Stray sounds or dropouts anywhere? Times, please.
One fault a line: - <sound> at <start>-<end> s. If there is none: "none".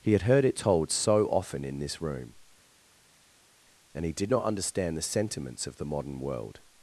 none